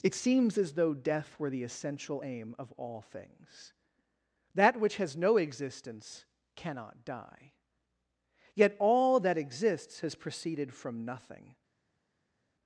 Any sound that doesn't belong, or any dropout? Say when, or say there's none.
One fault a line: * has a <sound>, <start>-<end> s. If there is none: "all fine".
all fine